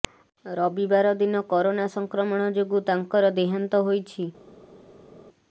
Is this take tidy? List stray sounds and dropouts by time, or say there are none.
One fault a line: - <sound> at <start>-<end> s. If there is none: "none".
none